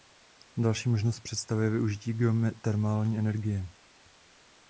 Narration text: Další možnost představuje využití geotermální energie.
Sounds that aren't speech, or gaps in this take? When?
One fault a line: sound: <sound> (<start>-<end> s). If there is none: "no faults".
no faults